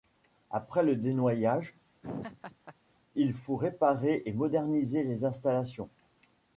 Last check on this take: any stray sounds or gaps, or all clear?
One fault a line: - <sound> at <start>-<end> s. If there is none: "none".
- laugh at 2.0-2.8 s